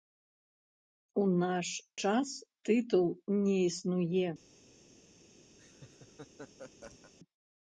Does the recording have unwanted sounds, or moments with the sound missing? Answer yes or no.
yes